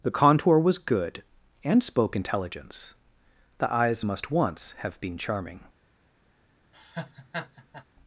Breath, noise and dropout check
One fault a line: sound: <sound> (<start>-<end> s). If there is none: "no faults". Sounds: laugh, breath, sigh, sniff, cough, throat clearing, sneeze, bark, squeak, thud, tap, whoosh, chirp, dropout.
sound: laugh (6.7-7.8 s)